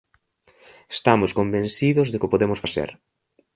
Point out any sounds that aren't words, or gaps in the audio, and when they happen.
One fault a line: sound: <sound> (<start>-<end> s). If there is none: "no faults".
no faults